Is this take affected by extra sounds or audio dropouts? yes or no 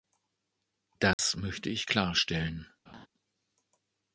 yes